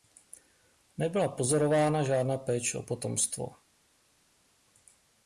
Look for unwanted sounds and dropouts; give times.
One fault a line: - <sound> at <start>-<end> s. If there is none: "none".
none